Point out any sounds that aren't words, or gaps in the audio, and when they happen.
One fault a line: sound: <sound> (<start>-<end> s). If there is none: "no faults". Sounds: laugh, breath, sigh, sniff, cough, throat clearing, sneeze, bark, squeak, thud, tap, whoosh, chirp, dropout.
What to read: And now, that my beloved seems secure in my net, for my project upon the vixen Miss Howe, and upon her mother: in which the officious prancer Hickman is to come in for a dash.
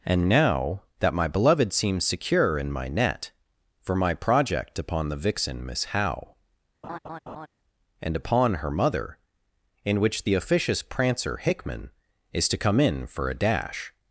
sound: laugh (6.8-7.5 s)